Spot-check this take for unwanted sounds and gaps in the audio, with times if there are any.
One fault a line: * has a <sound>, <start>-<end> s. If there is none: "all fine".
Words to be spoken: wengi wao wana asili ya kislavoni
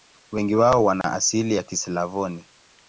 * has a dropout, 1.0-1.0 s